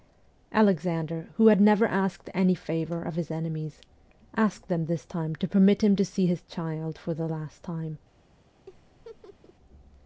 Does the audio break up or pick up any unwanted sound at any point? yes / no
yes